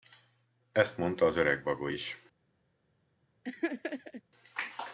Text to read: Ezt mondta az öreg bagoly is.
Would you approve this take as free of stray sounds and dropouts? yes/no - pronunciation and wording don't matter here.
no